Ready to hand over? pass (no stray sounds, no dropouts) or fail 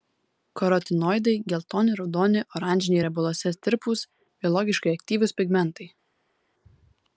pass